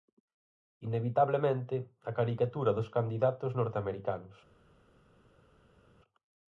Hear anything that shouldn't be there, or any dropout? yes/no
no